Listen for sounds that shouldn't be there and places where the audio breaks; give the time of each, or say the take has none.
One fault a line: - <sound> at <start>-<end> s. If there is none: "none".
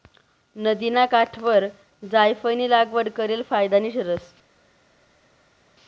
none